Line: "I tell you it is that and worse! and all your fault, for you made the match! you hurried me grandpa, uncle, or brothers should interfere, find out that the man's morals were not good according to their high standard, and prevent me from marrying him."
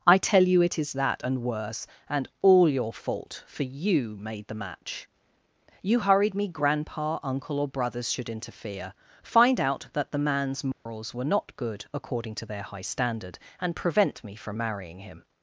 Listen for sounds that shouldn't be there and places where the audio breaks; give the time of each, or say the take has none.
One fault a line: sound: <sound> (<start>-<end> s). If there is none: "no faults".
sound: dropout (10.7-10.9 s)